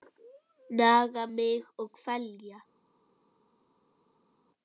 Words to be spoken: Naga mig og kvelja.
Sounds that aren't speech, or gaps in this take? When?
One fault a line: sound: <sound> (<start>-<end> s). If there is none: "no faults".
no faults